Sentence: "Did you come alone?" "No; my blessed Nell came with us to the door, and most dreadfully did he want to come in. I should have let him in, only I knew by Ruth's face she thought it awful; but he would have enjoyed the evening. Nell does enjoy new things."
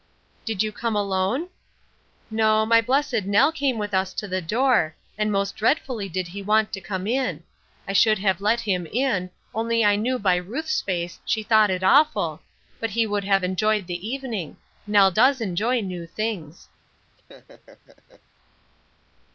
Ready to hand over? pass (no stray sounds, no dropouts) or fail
fail